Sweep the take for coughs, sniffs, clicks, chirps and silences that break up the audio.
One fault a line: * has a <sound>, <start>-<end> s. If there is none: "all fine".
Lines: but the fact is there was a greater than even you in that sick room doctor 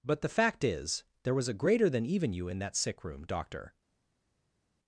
all fine